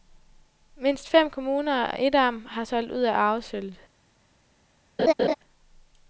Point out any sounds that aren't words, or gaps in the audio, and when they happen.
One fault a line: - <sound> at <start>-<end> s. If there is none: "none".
- laugh at 5.0-5.3 s